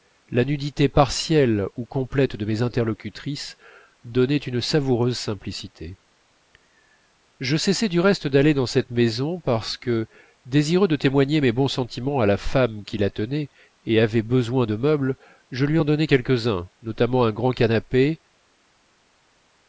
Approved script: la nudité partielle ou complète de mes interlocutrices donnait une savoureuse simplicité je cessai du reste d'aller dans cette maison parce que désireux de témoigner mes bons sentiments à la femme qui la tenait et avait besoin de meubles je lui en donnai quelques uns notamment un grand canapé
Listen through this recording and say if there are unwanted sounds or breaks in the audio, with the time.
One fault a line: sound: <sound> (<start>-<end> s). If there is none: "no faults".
no faults